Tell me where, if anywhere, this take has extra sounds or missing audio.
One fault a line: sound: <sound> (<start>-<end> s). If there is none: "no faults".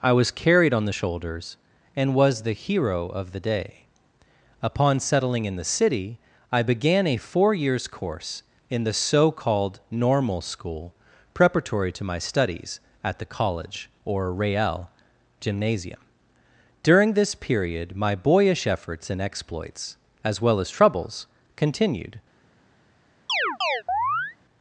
sound: chirp (23.3-24.4 s)